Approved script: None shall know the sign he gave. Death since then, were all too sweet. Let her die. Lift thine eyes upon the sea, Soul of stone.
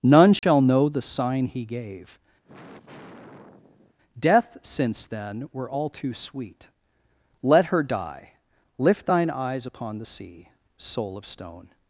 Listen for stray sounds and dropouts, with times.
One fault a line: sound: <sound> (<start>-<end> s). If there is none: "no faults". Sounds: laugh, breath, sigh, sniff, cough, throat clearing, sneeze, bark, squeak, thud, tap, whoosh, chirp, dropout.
sound: dropout (0.4-0.4 s)
sound: sigh (2.4-3.9 s)